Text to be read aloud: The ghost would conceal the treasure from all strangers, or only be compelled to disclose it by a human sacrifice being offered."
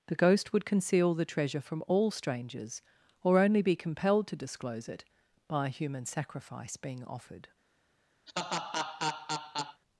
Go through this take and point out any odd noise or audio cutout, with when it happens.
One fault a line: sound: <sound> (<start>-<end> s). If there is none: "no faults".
sound: laugh (8.3-9.8 s)